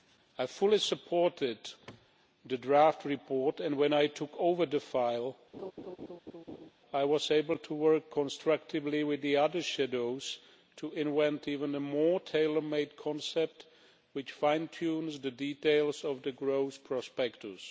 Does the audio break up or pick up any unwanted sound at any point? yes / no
yes